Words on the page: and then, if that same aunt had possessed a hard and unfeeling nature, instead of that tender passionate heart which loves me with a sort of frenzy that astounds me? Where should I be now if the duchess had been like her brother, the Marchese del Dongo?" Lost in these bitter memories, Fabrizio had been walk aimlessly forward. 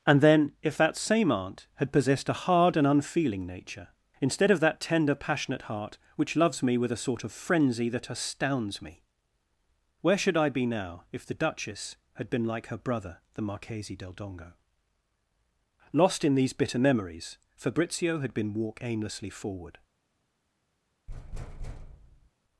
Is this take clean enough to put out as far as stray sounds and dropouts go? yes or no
no